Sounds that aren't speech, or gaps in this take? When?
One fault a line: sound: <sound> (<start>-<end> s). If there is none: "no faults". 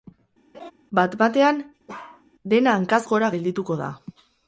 sound: laugh (0.5-0.7 s)
sound: bark (1.9-2.2 s)